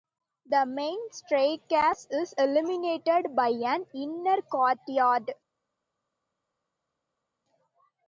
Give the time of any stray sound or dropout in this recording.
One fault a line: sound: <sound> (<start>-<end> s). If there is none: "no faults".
no faults